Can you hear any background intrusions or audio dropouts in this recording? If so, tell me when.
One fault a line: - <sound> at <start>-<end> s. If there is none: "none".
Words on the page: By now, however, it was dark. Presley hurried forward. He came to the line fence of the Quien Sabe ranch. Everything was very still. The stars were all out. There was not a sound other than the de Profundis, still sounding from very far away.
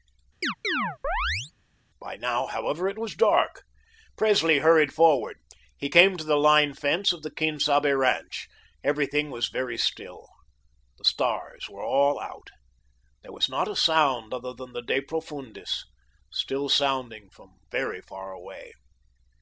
- chirp at 0.4-1.5 s